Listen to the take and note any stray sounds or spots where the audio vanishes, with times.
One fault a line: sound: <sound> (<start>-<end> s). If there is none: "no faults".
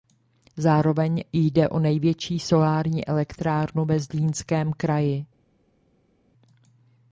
no faults